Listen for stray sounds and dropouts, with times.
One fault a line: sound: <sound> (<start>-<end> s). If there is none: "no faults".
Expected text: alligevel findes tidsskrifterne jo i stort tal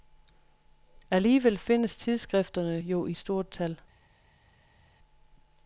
no faults